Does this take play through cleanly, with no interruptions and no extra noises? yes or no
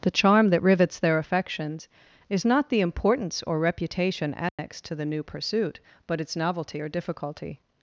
no